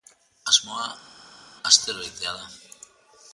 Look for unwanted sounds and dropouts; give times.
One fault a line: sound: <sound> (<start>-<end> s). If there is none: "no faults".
no faults